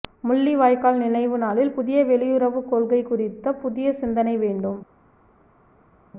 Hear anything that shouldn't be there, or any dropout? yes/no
no